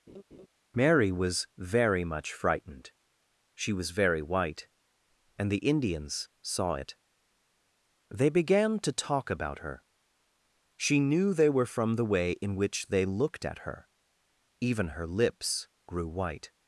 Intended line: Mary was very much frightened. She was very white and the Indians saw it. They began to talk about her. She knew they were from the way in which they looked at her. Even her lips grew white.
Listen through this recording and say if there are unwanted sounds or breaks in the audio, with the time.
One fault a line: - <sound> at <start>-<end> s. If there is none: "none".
- laugh at 0.1-0.5 s